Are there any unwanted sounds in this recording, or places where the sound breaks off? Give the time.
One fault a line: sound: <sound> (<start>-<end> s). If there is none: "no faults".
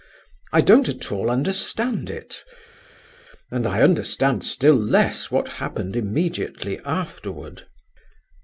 no faults